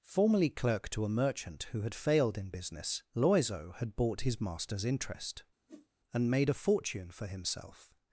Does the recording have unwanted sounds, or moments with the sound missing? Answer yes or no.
yes